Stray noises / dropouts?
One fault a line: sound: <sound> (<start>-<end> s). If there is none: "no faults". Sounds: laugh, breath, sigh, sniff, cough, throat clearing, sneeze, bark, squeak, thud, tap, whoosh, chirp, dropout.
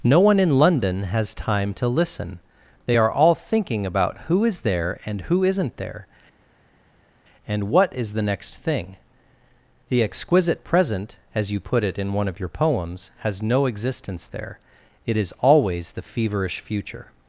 no faults